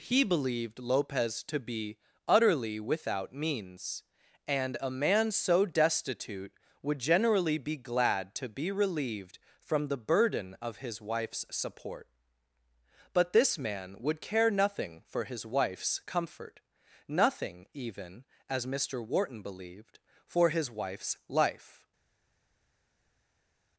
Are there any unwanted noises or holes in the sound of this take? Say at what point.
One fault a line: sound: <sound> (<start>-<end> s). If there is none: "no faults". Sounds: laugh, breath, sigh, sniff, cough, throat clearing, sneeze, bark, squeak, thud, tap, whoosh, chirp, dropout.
no faults